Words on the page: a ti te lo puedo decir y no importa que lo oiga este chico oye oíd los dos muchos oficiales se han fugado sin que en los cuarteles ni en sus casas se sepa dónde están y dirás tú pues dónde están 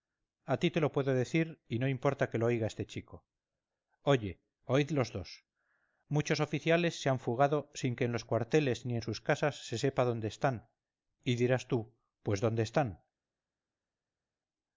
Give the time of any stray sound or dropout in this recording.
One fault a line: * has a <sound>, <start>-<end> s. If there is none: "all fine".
all fine